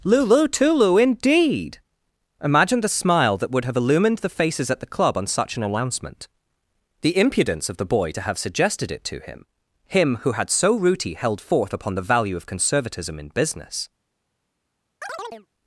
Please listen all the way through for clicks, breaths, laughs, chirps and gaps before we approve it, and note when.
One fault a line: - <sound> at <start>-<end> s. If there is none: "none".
- chirp at 15.0-15.5 s